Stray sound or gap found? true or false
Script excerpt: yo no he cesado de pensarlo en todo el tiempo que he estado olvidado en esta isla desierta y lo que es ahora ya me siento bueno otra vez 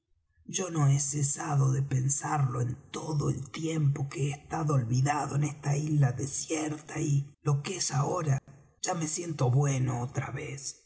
true